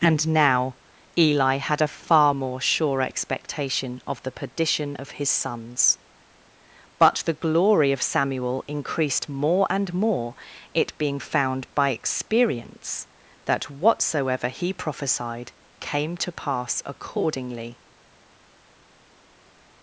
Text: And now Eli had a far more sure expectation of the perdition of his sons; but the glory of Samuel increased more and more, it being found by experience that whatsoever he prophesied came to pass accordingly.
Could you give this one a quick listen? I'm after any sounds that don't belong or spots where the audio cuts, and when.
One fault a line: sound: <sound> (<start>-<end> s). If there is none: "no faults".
no faults